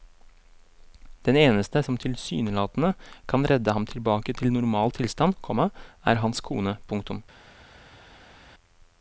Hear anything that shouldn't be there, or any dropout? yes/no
no